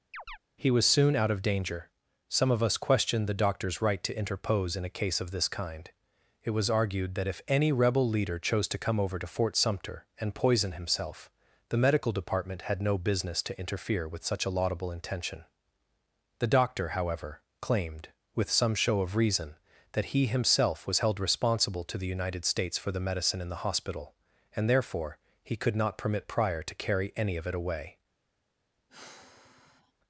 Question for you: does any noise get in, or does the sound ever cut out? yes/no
yes